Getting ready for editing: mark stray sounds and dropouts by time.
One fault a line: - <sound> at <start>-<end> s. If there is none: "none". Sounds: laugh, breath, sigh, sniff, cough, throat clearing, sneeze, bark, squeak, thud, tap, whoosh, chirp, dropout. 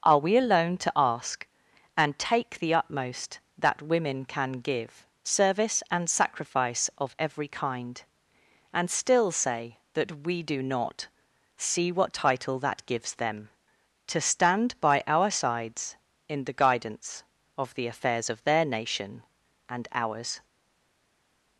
none